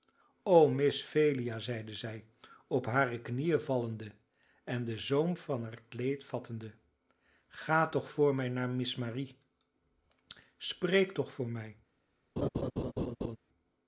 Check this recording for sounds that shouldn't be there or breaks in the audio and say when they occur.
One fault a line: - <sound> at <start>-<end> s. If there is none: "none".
- laugh at 12.4-13.4 s